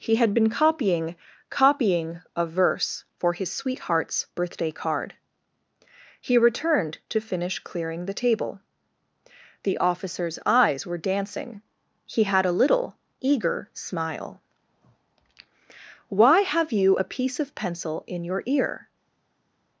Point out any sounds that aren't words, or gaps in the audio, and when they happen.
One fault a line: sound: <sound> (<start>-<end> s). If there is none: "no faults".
no faults